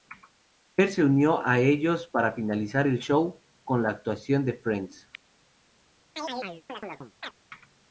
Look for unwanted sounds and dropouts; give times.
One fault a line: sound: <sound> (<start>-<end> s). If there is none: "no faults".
sound: chirp (6.2-7.4 s)